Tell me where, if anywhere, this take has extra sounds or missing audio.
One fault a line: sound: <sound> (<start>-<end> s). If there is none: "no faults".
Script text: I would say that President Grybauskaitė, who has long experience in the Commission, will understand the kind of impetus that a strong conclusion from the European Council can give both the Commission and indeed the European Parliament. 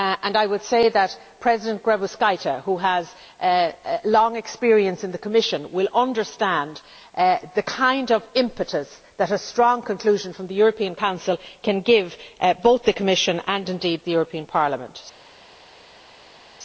no faults